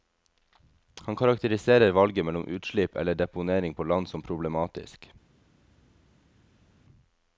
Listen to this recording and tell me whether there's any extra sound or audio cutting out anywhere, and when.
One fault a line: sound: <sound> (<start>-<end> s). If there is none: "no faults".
no faults